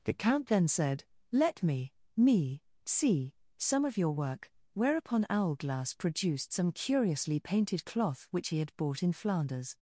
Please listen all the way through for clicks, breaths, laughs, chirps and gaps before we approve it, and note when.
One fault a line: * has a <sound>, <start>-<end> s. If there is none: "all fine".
all fine